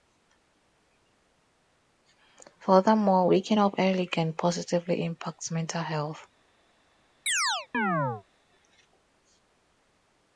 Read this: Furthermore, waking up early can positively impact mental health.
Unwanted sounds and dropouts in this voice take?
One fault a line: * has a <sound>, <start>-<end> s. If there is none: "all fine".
* has a chirp, 7.3-8.2 s